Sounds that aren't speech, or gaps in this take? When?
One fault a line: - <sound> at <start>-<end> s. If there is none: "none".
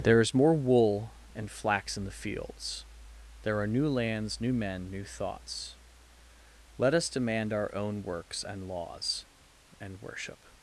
none